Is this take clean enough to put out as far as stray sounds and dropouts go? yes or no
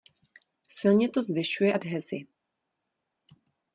yes